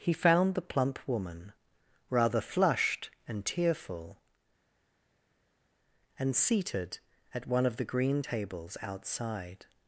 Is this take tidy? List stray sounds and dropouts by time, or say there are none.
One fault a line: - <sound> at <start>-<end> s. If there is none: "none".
none